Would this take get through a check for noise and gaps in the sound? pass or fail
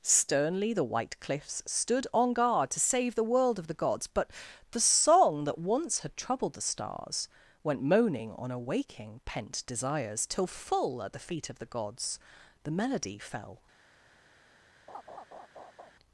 fail